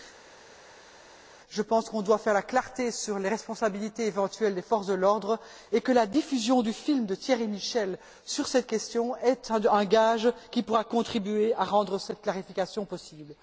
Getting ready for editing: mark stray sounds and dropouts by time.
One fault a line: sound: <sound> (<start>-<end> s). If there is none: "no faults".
no faults